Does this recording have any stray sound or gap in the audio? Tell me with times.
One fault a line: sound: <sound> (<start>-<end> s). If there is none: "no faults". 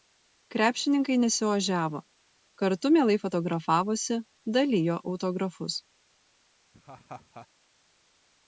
sound: laugh (6.7-7.5 s)